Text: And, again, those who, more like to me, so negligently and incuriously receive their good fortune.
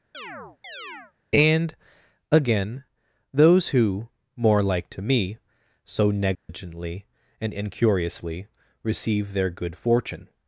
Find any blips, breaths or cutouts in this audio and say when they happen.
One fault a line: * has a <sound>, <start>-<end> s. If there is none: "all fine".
* has a chirp, 0.1-1.1 s
* has a dropout, 6.3-6.5 s